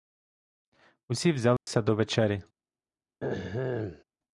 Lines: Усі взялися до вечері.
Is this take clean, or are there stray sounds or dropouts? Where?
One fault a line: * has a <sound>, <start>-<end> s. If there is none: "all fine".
* has a dropout, 1.6-1.7 s
* has a throat clearing, 3.2-4.0 s